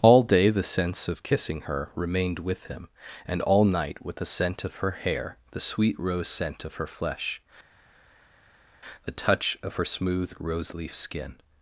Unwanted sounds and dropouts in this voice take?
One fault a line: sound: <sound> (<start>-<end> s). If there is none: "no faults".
no faults